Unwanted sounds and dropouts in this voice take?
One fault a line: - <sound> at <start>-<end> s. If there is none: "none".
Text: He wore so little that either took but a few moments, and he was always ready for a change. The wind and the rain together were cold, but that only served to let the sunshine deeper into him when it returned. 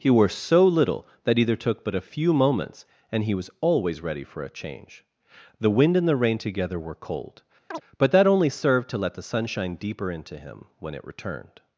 - chirp at 7.7-7.8 s